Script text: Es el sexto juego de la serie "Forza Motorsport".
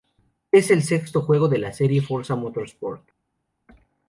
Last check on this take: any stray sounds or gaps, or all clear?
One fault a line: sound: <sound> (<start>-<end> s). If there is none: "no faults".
no faults